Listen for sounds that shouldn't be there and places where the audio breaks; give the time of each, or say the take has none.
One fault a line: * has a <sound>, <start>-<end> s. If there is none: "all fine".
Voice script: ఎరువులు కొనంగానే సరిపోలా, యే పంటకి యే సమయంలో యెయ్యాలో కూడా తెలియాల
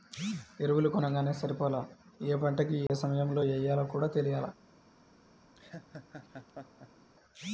* has a dropout, 2.9-2.9 s
* has a laugh, 5.6-7.1 s